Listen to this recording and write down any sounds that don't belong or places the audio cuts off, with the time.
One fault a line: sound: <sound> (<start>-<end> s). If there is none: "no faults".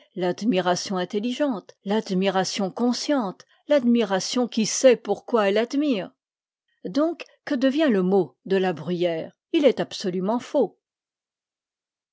no faults